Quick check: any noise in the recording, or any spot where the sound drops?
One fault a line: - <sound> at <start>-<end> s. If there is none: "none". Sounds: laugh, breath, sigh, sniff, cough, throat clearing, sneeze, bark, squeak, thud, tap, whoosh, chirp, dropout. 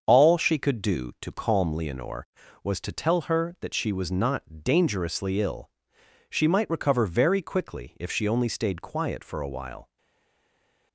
none